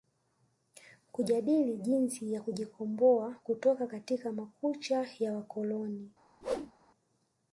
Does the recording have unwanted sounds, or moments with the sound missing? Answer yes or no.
yes